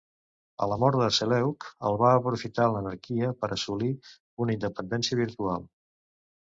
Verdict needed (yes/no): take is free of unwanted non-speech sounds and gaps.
yes